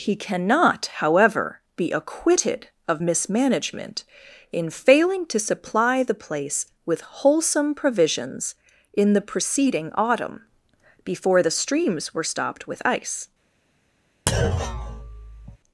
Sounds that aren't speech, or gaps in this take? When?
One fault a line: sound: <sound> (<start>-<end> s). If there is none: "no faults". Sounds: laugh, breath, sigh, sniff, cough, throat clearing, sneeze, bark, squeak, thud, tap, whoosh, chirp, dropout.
sound: thud (14.3-15.6 s)